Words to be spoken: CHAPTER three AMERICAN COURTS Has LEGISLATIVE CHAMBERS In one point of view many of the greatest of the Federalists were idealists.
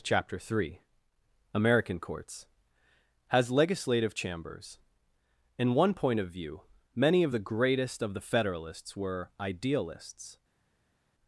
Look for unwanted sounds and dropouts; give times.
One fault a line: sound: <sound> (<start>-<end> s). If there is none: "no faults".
no faults